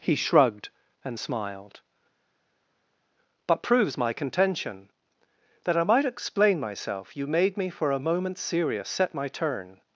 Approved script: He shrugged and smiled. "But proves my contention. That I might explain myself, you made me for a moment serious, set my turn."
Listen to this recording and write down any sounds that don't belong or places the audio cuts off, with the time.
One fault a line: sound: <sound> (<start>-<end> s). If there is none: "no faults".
no faults